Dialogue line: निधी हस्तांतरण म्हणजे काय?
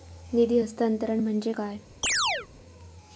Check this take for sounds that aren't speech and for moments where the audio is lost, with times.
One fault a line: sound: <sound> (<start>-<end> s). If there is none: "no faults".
sound: chirp (2.0-2.5 s)